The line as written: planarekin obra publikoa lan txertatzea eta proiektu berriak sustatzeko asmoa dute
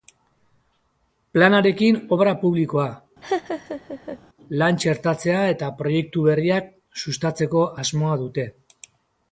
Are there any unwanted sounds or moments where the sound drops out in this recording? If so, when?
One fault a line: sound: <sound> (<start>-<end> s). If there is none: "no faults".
sound: laugh (3.2-4.2 s)